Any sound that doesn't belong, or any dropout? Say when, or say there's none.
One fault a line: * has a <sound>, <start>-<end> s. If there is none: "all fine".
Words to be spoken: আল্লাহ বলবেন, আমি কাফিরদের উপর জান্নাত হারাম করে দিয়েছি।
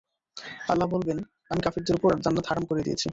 all fine